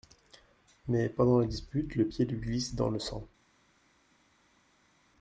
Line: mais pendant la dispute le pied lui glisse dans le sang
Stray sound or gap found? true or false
false